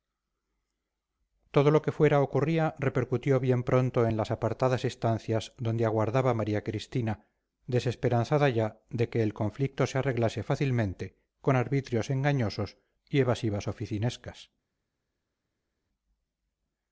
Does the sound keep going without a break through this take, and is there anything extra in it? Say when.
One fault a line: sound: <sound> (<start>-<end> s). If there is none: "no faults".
no faults